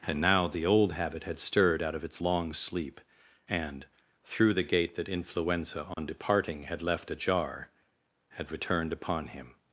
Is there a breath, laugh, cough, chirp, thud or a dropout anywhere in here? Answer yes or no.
yes